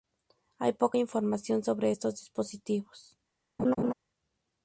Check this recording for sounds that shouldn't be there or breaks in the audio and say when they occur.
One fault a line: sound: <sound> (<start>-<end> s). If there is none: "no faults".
sound: laugh (3.6-3.9 s)